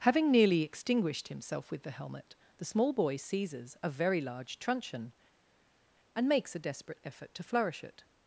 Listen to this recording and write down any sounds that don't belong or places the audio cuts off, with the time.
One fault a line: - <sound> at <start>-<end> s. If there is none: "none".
none